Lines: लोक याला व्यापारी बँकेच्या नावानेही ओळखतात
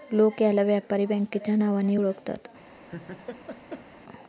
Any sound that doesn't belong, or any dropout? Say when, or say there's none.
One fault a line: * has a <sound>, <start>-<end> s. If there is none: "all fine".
* has a laugh, 2.8-3.9 s